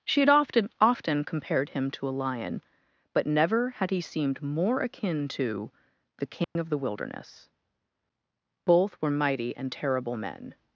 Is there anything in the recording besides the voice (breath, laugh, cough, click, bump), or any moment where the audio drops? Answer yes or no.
yes